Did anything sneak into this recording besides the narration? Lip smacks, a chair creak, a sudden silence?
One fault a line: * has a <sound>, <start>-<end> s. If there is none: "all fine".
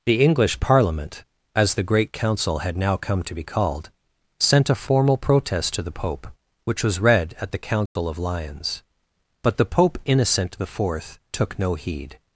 * has a dropout, 7.9-8.0 s